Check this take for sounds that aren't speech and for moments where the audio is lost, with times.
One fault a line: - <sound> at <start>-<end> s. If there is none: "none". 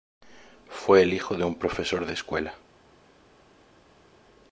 none